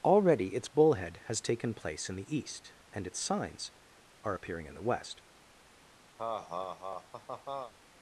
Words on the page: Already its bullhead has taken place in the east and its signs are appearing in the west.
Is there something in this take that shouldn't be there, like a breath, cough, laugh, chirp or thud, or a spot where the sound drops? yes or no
yes